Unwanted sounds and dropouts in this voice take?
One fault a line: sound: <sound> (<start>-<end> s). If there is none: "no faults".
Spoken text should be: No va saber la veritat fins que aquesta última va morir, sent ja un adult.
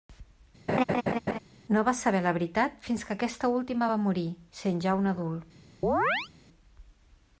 sound: laugh (0.7-1.4 s)
sound: chirp (5.8-6.3 s)